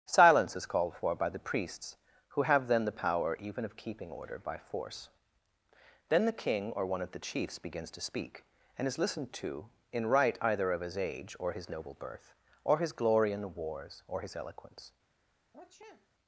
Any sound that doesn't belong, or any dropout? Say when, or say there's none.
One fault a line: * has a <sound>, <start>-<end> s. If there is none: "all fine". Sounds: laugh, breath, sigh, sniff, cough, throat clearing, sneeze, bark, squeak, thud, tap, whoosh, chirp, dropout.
* has a sniff, 15.5-16.1 s